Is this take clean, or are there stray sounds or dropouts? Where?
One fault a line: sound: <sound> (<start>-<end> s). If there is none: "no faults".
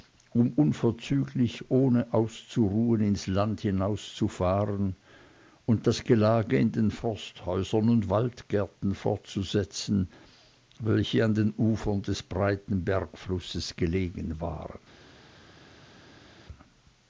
no faults